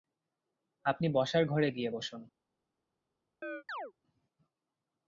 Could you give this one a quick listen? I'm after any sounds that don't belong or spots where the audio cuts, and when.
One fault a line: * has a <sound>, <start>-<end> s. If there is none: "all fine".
* has a chirp, 3.4-3.9 s